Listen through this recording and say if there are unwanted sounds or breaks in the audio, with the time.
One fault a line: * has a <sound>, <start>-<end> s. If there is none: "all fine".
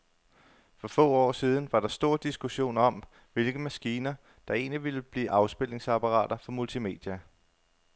all fine